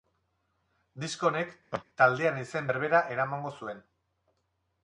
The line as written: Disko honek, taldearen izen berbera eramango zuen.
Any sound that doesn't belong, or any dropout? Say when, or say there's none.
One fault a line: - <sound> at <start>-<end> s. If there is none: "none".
- laugh at 1.7-1.8 s